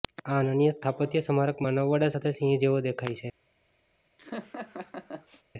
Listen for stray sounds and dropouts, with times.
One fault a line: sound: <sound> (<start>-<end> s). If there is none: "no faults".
sound: laugh (4.2-5.4 s)